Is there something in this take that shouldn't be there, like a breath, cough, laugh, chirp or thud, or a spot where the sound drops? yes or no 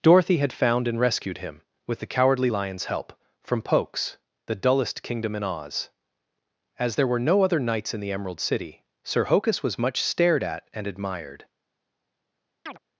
yes